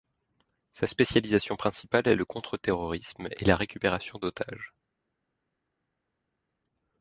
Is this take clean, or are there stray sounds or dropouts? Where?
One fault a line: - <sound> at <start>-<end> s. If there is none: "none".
none